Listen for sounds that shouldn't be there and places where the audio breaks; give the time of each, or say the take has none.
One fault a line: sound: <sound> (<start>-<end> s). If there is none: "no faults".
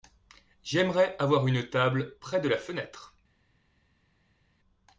no faults